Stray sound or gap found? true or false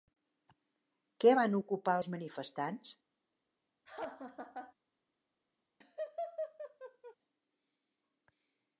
true